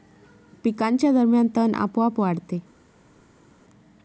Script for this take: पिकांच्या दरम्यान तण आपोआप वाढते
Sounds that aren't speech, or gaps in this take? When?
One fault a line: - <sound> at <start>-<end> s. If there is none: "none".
none